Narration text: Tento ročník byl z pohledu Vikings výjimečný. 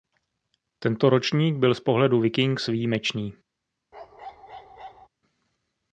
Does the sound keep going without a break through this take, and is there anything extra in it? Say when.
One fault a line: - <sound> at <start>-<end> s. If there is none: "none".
- bark at 3.9-5.1 s